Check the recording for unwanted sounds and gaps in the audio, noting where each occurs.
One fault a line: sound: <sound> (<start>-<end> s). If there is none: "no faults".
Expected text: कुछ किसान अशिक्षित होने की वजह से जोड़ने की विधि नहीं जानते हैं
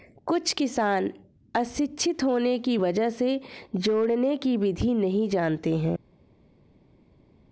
no faults